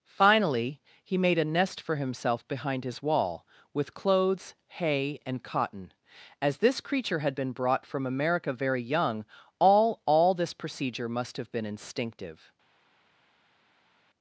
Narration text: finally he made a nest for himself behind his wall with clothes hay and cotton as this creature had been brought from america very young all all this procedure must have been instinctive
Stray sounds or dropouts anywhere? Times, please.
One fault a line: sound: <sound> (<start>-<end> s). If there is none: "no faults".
no faults